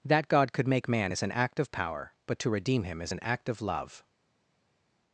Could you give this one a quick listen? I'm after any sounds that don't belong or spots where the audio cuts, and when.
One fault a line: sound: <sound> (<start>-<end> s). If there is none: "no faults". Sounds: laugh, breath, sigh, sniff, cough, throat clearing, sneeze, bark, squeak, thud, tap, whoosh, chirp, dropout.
no faults